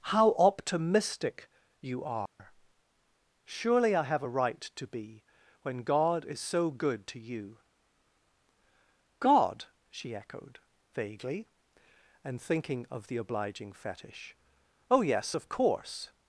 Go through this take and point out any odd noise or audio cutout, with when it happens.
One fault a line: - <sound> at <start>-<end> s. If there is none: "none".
- dropout at 2.3-2.4 s